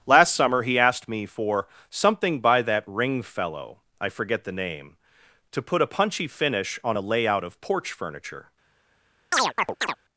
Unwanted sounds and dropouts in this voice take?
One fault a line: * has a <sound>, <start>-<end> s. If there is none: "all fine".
* has a chirp, 9.3-10.0 s